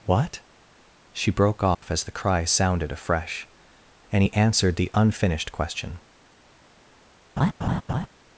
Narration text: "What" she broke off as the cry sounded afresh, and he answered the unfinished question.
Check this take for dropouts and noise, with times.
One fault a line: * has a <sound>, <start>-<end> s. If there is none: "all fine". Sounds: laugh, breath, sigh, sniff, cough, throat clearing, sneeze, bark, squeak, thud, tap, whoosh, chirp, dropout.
* has a dropout, 1.7-1.8 s
* has a laugh, 7.4-8.1 s